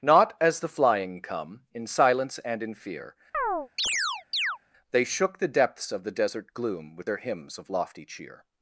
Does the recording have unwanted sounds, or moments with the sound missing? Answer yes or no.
yes